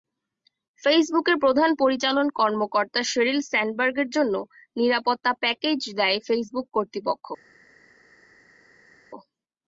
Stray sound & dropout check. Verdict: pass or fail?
pass